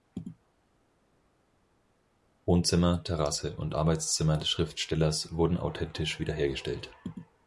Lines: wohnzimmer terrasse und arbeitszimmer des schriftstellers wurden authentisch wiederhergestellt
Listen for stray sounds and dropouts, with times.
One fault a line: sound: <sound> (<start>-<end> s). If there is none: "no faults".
no faults